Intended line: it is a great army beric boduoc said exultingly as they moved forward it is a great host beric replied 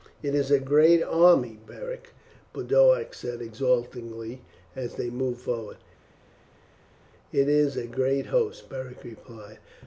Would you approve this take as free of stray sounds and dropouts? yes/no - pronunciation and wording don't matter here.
yes